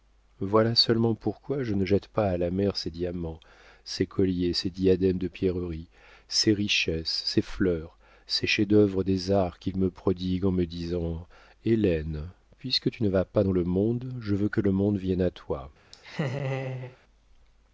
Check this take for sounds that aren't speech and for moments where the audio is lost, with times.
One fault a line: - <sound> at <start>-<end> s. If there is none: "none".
- laugh at 15.9-17.0 s